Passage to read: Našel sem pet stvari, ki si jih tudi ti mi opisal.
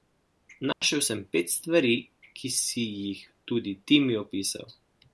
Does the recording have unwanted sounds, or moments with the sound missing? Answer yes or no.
yes